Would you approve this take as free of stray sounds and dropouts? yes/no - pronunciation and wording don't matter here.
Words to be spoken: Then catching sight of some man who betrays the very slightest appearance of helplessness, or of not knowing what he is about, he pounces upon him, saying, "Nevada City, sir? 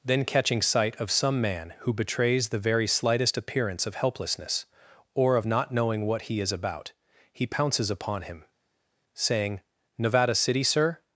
yes